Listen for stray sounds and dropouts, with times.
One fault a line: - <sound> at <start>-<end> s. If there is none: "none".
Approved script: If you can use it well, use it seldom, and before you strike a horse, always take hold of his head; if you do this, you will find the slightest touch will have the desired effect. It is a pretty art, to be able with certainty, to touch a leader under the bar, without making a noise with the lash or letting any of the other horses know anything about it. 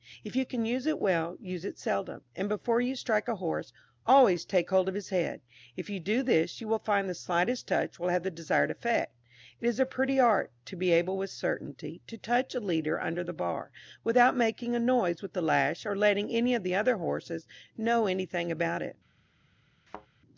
- thud at 19.9-20.1 s